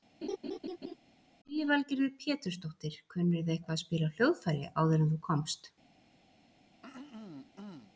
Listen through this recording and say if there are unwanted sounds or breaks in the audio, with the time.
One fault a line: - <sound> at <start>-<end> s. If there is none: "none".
- laugh at 0.2-1.0 s
- throat clearing at 6.8-7.9 s